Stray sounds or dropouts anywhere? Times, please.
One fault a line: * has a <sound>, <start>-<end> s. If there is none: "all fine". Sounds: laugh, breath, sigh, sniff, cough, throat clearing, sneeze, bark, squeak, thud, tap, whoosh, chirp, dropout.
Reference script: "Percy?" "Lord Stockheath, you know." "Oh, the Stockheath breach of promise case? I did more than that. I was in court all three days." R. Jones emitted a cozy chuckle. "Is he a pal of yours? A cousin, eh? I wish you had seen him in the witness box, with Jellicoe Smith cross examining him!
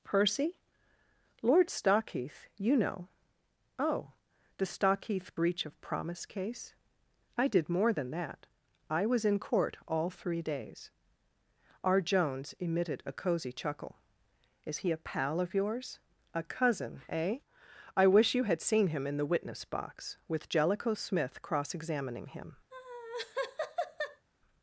* has a laugh, 22.7-24.3 s